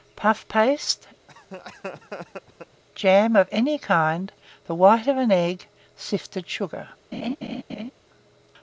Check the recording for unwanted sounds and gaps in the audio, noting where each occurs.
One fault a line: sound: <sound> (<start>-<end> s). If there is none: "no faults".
sound: laugh (1.3-2.8 s)
sound: laugh (7.1-7.9 s)